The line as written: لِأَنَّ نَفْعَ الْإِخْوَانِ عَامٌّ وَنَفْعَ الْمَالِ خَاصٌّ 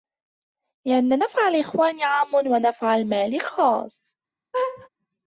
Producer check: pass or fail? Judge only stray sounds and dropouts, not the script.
fail